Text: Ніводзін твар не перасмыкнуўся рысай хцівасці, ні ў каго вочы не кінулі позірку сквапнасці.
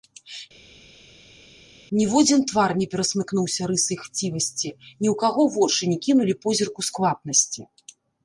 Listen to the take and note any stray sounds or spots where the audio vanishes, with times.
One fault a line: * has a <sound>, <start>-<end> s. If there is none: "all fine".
all fine